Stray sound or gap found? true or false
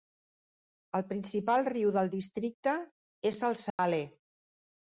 true